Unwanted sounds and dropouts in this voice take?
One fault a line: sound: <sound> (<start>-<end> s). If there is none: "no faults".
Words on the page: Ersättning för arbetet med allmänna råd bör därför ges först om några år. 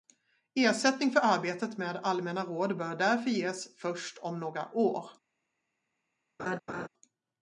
sound: laugh (6.4-6.9 s)